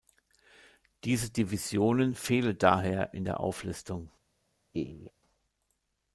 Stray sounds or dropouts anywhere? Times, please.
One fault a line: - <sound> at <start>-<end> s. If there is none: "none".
- laugh at 4.7-5.1 s